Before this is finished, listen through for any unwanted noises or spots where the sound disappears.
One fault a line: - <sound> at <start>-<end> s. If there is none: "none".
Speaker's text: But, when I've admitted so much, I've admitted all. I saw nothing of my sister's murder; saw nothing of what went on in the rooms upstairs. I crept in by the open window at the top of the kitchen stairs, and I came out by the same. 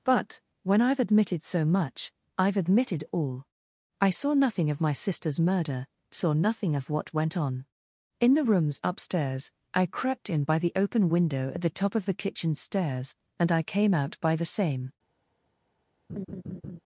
- laugh at 16.1-16.8 s